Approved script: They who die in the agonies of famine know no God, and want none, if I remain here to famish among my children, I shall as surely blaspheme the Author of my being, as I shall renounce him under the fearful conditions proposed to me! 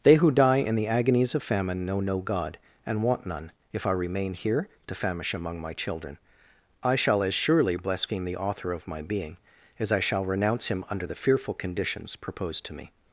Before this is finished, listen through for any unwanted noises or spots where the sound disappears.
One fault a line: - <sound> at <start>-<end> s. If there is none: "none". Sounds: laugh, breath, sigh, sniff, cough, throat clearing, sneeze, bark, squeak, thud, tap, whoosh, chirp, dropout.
none